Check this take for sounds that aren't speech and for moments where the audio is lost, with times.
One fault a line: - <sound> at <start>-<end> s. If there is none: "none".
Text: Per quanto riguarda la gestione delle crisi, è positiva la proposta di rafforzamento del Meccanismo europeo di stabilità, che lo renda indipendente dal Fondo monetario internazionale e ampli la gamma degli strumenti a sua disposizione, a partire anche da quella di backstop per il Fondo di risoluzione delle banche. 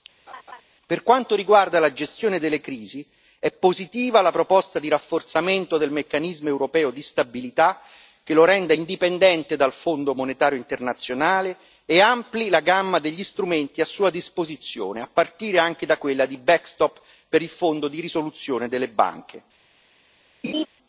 - laugh at 0.3-0.6 s
- laugh at 20.4-20.7 s